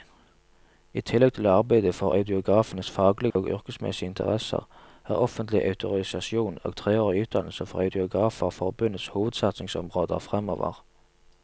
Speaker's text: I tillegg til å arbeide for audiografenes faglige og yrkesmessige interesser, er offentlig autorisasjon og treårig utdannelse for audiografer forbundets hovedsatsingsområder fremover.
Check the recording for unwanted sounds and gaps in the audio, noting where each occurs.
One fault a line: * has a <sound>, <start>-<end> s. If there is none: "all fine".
* has a dropout, 3.3-3.4 s